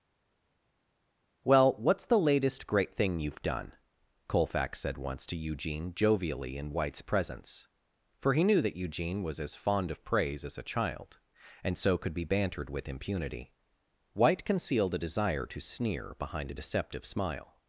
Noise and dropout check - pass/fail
pass